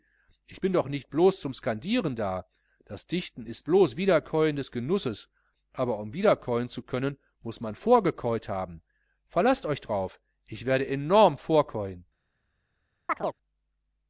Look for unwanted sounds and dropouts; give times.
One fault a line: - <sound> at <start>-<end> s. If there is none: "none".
- chirp at 13.1-13.4 s